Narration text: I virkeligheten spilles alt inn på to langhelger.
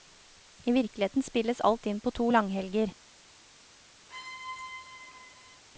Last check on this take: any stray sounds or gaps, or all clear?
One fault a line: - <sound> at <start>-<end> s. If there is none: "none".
- squeak at 4.1-5.6 s